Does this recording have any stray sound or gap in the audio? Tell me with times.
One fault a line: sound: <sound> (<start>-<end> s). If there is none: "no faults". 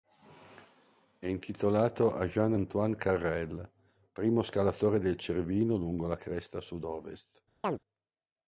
sound: chirp (7.6-7.8 s)